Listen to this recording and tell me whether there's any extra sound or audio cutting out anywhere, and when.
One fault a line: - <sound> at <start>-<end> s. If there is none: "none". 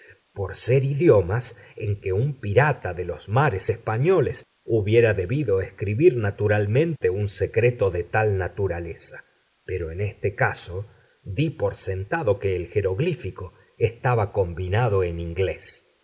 none